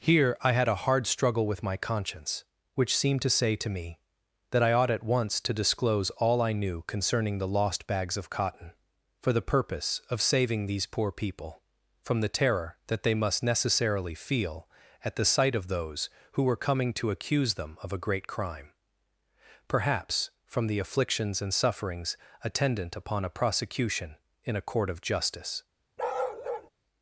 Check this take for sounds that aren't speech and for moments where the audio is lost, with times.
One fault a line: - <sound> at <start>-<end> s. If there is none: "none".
- bark at 26.0-26.7 s